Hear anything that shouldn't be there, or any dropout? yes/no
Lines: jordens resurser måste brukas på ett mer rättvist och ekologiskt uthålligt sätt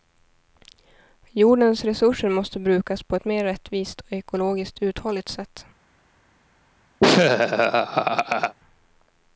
yes